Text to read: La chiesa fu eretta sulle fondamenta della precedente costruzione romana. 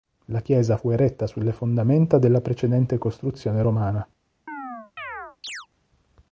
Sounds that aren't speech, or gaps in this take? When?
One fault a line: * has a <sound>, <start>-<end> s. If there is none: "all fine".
* has a chirp, 4.5-5.7 s